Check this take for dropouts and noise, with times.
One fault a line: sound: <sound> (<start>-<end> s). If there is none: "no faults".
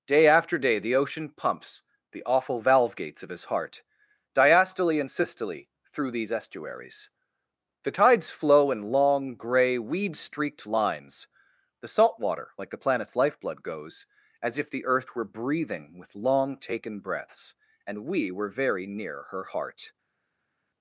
no faults